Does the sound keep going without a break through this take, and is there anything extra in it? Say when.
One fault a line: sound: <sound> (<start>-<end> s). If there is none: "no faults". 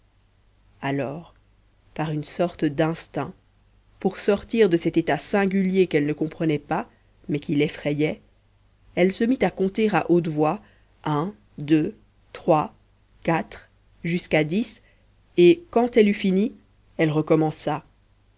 no faults